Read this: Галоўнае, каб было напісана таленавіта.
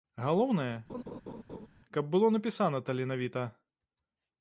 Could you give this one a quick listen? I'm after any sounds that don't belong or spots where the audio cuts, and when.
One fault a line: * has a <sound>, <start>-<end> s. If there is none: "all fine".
* has a laugh, 0.9-1.7 s